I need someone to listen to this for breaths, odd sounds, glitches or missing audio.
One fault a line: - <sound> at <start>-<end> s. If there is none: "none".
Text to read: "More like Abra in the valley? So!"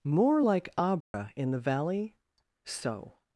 - dropout at 1.0-1.1 s